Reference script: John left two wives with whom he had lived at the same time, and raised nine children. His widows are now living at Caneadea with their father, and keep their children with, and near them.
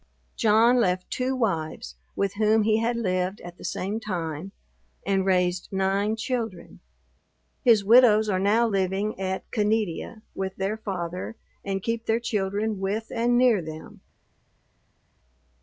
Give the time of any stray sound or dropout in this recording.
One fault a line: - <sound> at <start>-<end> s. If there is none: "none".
none